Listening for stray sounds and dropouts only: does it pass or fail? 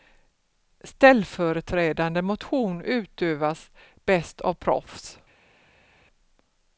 pass